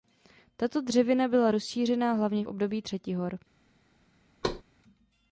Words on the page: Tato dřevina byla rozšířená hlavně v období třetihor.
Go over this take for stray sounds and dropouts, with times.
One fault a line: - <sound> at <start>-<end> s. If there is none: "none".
- thud at 4.4-4.6 s